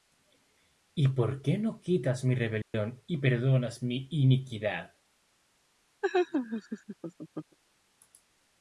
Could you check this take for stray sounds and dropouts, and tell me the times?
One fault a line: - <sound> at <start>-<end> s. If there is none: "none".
- dropout at 2.6-2.7 s
- laugh at 6.0-7.6 s